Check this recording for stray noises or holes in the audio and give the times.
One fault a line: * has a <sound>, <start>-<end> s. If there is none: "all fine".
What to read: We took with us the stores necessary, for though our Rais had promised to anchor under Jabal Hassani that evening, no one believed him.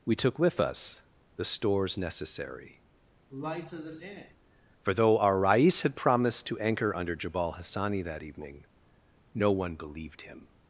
* has a sigh, 3.3-4.3 s